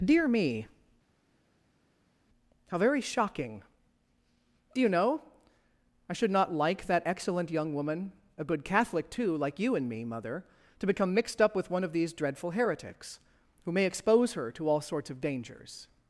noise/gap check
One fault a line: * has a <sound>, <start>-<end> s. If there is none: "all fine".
all fine